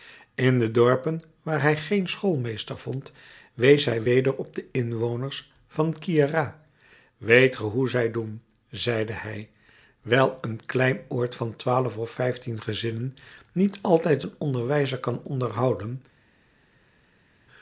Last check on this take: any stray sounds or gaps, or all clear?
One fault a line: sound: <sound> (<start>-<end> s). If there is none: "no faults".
no faults